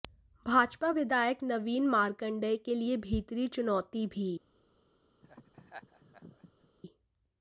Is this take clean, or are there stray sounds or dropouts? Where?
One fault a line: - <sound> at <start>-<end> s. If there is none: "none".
- laugh at 5.2-6.7 s